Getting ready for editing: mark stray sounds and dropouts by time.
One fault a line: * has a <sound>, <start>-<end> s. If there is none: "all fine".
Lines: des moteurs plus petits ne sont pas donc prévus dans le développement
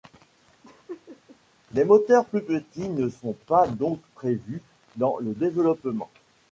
* has a laugh, 0.6-1.4 s